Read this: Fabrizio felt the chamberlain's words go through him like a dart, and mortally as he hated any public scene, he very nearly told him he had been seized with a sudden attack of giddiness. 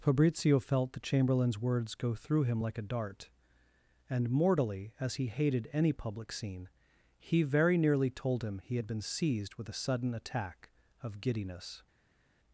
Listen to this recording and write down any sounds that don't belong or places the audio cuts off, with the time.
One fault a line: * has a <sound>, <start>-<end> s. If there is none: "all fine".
all fine